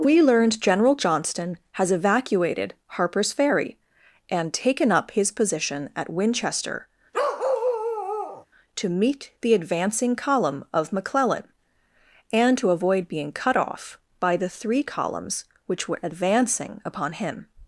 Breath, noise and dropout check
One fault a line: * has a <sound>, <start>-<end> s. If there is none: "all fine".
* has a bark, 7.1-8.5 s